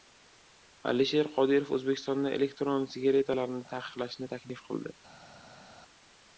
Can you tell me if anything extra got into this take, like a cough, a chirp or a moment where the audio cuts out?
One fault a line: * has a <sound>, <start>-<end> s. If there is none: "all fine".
all fine